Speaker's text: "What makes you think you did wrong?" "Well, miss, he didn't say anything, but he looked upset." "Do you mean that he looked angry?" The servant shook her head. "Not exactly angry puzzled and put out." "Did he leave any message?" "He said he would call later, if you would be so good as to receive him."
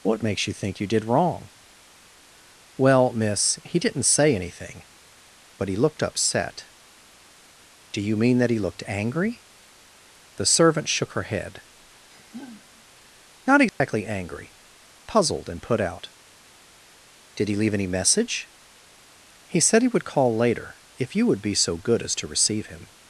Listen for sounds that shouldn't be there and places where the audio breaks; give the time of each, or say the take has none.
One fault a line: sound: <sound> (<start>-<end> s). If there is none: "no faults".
sound: sigh (12.1-12.8 s)
sound: dropout (13.7-13.8 s)